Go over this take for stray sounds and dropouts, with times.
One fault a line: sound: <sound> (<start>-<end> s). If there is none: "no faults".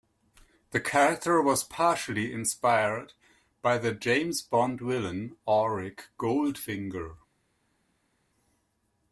no faults